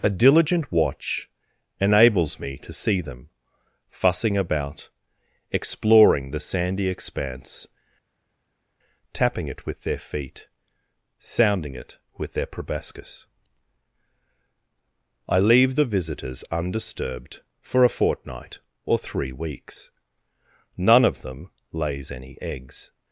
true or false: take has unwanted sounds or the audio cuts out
false